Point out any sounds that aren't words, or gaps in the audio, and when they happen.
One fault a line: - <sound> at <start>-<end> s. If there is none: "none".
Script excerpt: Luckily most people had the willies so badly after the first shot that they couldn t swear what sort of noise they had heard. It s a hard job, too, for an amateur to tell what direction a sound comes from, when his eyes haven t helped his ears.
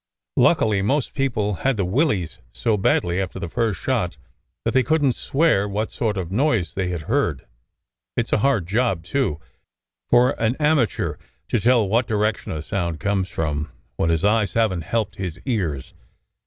none